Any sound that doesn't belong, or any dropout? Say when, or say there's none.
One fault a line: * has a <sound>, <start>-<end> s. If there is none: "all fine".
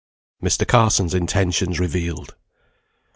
all fine